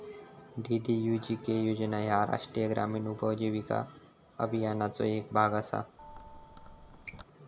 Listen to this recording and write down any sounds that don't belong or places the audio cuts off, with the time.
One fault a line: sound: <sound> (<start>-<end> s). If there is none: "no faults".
sound: squeak (6.0-7.2 s)